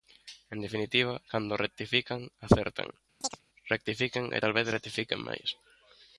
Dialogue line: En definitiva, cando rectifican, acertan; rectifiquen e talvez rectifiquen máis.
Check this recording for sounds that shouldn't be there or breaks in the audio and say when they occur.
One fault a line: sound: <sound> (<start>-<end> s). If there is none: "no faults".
sound: chirp (3.2-3.4 s)